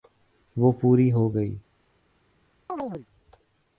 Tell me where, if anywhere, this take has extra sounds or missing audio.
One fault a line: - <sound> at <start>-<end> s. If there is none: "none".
- chirp at 2.7-3.1 s